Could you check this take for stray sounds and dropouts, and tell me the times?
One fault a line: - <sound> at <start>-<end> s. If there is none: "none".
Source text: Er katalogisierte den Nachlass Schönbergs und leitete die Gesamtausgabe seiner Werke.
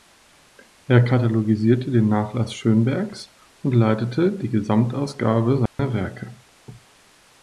- dropout at 5.7-5.8 s